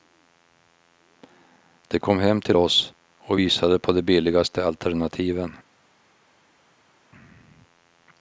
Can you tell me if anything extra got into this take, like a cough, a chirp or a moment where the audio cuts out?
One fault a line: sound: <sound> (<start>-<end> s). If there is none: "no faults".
no faults